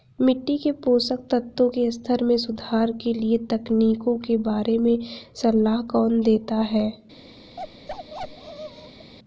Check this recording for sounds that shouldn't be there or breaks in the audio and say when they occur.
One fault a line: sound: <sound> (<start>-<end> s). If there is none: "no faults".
sound: bark (7.6-9.1 s)